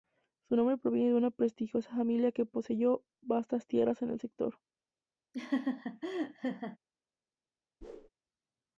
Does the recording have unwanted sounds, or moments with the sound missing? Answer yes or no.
yes